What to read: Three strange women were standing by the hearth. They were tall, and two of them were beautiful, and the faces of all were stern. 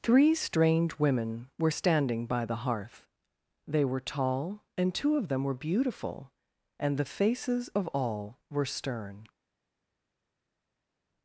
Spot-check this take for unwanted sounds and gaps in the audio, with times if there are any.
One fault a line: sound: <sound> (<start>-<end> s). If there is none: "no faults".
no faults